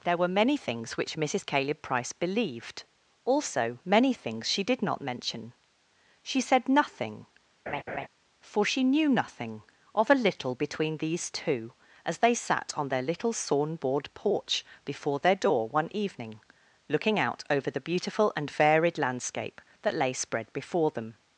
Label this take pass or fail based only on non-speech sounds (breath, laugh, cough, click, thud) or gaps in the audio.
fail